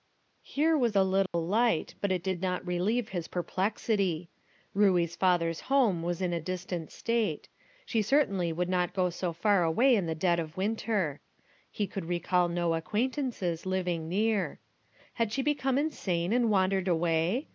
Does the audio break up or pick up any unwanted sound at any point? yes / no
yes